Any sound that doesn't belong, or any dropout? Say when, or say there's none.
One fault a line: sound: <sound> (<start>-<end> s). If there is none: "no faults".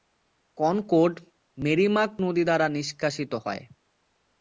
no faults